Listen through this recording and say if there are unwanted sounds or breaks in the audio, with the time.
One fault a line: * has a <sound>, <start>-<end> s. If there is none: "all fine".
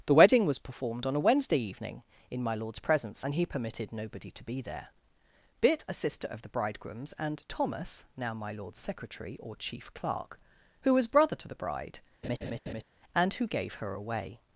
* has a laugh, 12.2-12.8 s